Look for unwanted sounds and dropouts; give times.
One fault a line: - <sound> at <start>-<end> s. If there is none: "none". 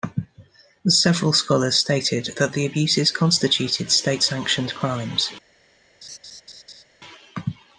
- laugh at 6.0-6.8 s